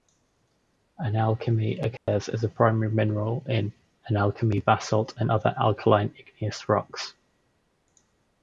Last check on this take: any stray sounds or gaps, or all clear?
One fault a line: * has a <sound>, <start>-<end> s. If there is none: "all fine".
* has a dropout, 2.0-2.1 s